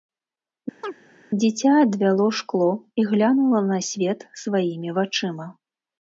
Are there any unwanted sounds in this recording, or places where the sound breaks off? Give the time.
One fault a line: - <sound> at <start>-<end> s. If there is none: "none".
- chirp at 0.8-0.9 s